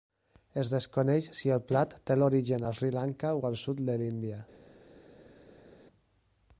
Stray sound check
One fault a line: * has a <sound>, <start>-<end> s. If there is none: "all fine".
all fine